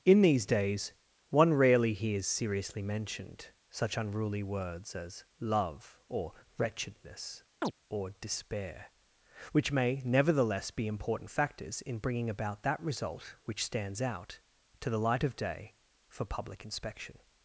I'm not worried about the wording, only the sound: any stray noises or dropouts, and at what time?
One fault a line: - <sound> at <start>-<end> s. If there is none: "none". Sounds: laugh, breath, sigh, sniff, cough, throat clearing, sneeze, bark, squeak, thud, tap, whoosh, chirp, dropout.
- chirp at 7.6-7.7 s